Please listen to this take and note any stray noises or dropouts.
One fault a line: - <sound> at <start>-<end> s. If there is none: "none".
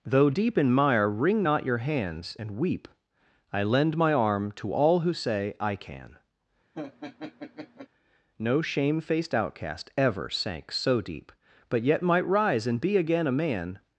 - laugh at 6.7-7.9 s